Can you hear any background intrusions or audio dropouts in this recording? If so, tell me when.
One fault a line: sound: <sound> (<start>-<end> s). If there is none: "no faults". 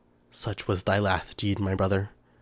no faults